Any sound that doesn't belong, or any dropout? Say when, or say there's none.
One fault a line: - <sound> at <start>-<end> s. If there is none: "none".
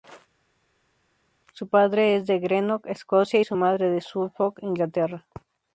none